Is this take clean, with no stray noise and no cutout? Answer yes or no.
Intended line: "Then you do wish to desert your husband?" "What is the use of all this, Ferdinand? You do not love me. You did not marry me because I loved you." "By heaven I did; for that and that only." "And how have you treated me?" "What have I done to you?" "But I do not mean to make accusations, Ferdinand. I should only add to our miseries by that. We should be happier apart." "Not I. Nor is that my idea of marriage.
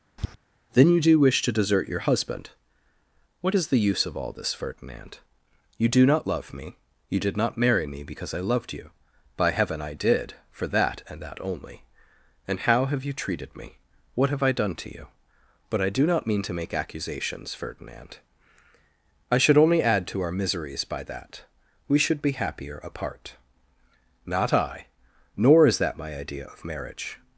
no